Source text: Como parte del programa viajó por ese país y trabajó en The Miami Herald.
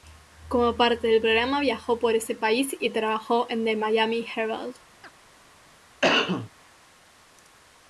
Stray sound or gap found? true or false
true